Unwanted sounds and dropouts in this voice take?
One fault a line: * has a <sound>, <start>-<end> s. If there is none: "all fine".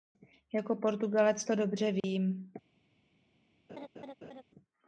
* has a dropout, 2.0-2.0 s
* has a laugh, 3.7-4.4 s